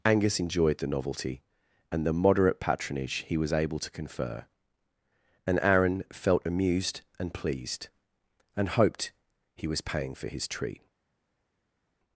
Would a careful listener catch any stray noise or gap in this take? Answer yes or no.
no